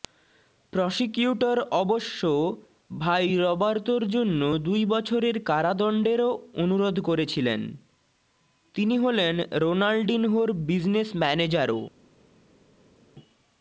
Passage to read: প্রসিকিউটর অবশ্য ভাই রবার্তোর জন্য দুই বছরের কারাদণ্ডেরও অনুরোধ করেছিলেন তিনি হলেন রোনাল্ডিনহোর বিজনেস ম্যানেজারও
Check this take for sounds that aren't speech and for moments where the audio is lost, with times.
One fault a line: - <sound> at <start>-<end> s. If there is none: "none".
none